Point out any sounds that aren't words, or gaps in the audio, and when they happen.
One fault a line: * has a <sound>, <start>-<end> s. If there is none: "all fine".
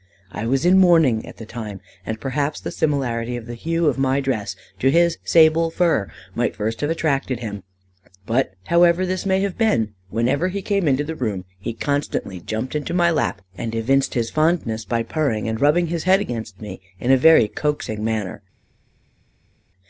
all fine